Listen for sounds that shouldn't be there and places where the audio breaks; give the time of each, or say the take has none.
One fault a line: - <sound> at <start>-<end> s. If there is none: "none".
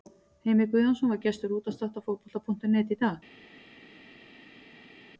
none